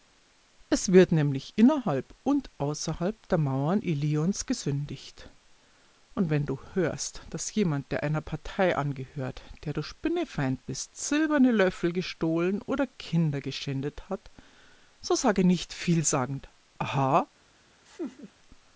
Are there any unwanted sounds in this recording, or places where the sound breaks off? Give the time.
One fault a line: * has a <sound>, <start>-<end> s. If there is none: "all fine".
* has a laugh, 17.9-18.3 s